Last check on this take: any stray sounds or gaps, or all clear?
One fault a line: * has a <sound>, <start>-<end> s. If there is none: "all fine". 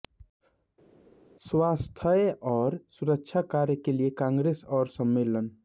all fine